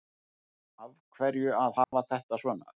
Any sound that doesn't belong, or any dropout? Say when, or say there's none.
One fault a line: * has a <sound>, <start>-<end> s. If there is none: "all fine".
* has a dropout, 1.8-1.9 s